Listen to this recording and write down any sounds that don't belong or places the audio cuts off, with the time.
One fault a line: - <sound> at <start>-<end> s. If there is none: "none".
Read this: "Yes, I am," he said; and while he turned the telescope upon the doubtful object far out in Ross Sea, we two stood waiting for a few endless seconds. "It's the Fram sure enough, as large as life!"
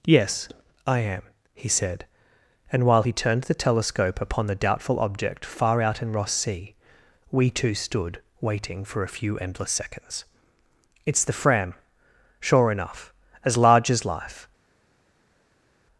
none